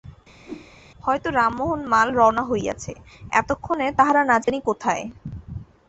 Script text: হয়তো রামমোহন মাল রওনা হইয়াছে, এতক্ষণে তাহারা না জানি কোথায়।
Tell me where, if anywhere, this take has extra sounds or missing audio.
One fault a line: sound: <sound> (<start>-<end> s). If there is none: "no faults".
sound: whoosh (0.4-0.7 s)
sound: dropout (4.4-4.5 s)